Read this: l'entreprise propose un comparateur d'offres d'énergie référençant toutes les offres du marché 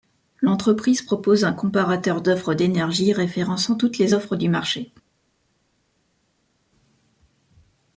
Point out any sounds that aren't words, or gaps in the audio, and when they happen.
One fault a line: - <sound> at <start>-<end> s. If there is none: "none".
none